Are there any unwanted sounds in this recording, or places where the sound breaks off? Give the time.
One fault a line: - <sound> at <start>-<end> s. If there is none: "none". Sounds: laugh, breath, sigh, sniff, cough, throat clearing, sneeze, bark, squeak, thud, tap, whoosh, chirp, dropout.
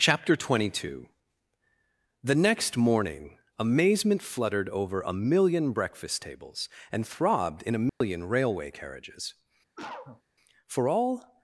- dropout at 7.9-8.0 s
- cough at 9.8-10.2 s